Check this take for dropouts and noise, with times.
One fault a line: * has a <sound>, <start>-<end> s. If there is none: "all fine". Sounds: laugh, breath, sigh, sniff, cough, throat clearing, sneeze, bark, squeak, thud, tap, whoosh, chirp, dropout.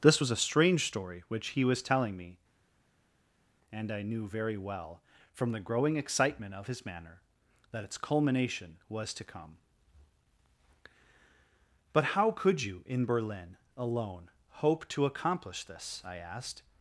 all fine